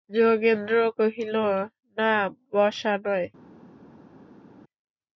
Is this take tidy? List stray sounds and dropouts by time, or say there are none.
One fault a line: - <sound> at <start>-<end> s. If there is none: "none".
none